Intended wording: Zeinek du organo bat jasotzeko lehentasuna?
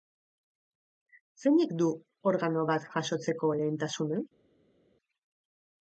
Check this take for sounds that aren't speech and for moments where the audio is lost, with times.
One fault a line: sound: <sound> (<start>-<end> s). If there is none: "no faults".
no faults